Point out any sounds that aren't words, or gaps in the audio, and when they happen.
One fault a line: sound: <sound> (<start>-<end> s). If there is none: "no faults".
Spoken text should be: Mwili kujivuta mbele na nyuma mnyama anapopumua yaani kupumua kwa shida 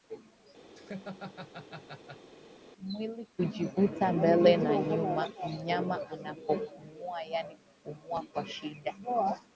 sound: laugh (0.7-2.3 s)